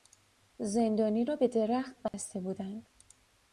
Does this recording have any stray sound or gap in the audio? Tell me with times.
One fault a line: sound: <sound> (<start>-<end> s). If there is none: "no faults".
sound: dropout (2.1-2.1 s)